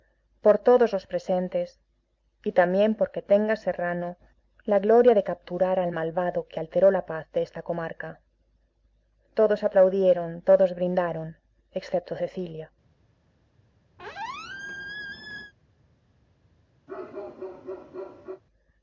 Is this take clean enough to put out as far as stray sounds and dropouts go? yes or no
no